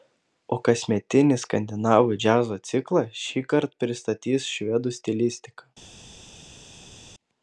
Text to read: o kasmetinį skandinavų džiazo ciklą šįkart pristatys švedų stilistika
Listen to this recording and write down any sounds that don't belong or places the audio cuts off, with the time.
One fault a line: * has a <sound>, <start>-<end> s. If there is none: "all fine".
all fine